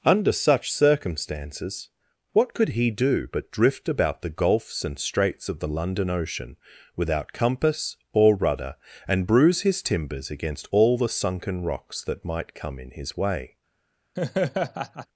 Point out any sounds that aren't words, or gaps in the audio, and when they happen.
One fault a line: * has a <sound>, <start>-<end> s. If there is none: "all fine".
* has a laugh, 14.2-15.1 s